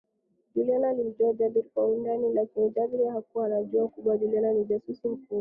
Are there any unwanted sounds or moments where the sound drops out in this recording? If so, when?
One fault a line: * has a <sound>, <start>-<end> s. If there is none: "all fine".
all fine